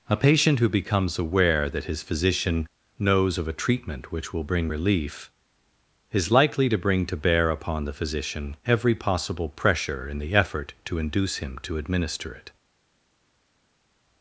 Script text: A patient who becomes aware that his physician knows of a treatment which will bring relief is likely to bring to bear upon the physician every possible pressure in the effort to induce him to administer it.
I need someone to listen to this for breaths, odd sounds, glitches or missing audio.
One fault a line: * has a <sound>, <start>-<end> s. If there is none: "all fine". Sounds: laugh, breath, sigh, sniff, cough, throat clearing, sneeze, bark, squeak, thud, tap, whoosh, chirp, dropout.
all fine